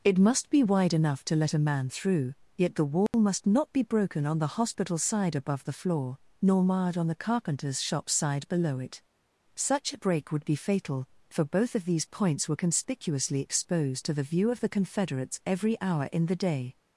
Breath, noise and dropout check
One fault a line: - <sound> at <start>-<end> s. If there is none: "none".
- dropout at 3.1-3.1 s